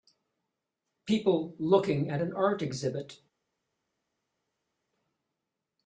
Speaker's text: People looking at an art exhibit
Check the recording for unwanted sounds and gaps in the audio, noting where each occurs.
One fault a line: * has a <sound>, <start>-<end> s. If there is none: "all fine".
all fine